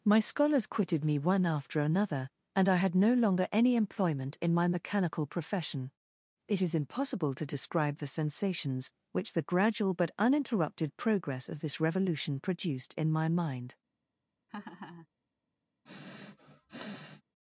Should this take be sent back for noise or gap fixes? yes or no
yes